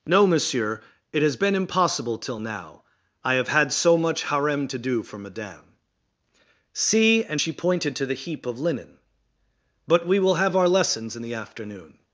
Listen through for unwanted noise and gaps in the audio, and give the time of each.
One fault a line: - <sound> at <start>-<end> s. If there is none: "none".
none